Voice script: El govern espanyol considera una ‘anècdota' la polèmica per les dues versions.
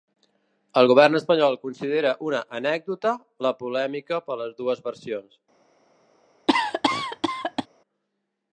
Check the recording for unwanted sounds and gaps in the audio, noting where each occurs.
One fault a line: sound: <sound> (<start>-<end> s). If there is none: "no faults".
sound: cough (6.5-7.7 s)